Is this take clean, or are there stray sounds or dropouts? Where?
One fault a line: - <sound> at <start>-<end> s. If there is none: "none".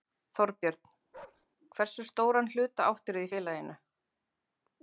- bark at 1.1-1.5 s